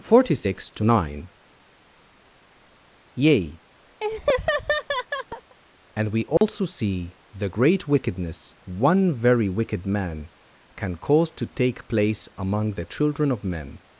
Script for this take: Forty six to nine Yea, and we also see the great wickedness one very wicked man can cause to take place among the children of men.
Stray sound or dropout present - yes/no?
yes